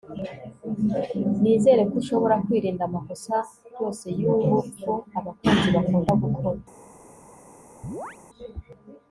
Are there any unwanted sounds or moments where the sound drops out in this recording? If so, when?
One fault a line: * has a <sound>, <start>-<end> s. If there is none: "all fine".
* has a chirp, 7.8-8.2 s